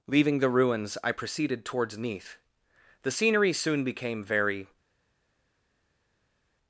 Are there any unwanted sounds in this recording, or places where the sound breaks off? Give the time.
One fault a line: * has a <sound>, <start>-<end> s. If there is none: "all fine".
all fine